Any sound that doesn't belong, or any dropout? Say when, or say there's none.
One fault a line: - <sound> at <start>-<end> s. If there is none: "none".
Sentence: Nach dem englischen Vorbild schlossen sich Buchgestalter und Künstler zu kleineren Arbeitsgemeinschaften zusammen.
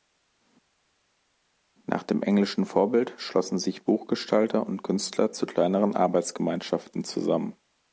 none